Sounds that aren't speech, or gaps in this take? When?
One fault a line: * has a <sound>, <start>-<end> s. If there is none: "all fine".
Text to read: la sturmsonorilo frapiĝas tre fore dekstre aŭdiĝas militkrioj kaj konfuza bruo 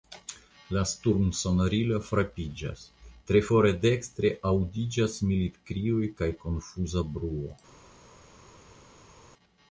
all fine